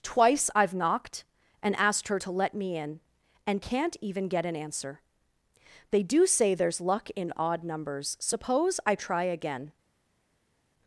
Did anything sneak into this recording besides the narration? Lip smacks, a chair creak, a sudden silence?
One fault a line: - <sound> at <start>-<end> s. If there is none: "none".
none